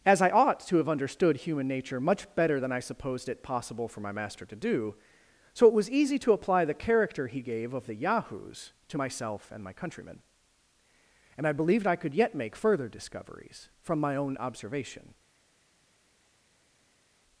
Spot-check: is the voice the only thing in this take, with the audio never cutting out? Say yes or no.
yes